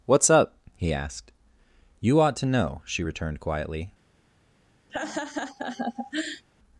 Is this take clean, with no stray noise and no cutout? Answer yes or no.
no